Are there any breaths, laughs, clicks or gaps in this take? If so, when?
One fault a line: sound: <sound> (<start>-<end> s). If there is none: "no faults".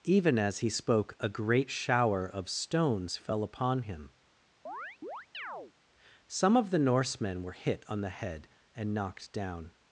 sound: chirp (4.7-5.7 s)